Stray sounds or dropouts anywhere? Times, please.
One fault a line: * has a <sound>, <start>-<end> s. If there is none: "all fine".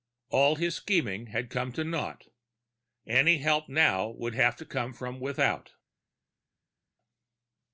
all fine